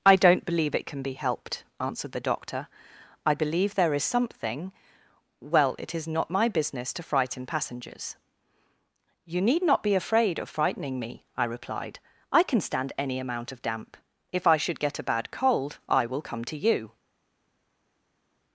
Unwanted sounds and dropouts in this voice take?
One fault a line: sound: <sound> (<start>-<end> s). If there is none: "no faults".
no faults